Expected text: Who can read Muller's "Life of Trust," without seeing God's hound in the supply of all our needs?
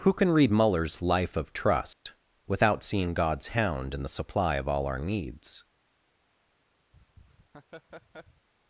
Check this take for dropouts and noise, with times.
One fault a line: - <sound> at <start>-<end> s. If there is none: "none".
- dropout at 1.9-2.1 s
- laugh at 6.9-8.5 s